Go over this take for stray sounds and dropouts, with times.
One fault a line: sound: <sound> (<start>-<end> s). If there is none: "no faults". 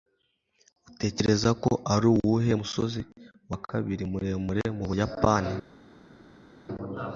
no faults